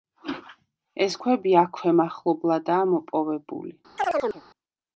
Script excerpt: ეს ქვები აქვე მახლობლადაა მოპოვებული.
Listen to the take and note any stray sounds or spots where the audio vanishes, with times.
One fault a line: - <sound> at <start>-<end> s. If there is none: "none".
- chirp at 4.0-4.4 s